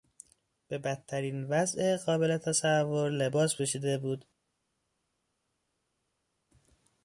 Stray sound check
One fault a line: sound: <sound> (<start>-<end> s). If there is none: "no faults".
no faults